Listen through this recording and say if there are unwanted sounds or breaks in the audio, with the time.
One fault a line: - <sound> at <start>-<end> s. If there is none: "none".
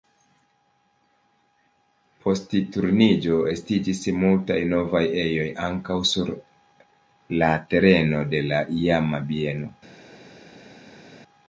none